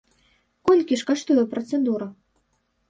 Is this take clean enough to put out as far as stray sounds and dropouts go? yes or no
yes